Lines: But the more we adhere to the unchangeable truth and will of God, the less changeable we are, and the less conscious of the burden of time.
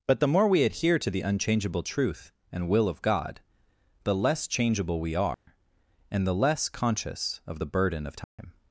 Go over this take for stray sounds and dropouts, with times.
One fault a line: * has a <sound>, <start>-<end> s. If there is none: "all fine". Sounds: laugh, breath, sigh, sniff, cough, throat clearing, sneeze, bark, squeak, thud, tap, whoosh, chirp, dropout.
* has a dropout, 5.3-5.5 s
* has a dropout, 8.2-8.4 s